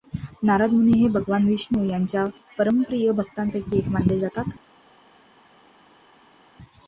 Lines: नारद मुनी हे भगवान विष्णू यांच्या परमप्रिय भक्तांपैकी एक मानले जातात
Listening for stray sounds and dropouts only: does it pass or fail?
pass